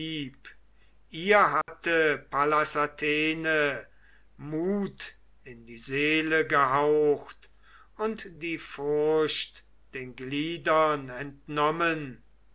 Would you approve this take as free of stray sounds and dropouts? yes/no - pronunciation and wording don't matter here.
no